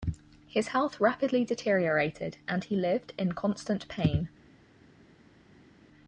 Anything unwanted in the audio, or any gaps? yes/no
no